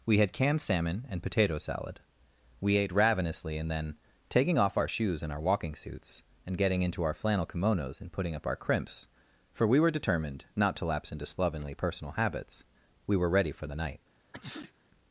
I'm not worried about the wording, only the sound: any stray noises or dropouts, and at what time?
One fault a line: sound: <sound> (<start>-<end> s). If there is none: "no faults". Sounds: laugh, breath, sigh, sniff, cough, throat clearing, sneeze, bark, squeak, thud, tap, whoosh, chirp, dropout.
sound: sneeze (14.3-14.7 s)